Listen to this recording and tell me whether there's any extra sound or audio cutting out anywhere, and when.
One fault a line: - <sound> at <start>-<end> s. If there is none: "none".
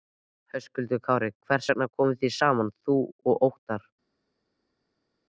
none